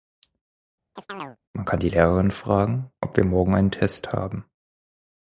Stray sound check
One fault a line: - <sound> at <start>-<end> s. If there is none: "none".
- chirp at 1.0-1.4 s